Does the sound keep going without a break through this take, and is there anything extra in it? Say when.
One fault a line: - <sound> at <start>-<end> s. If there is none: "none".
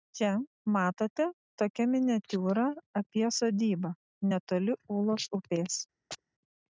- chirp at 6.1-6.2 s